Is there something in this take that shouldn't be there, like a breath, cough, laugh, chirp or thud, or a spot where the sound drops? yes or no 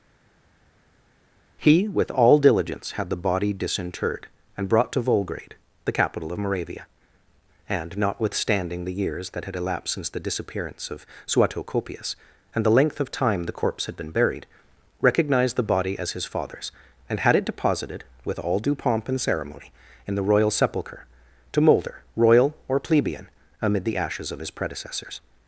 no